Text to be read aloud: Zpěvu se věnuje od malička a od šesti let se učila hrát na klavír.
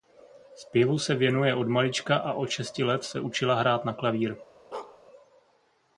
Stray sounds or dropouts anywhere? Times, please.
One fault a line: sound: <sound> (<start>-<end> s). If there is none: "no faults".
sound: bark (4.7-5.0 s)